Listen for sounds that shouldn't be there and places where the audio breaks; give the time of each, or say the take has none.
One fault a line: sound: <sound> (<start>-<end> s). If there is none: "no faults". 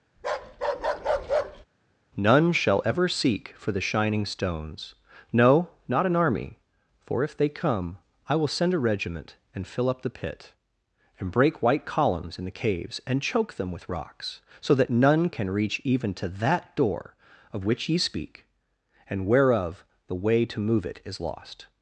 sound: bark (0.2-1.7 s)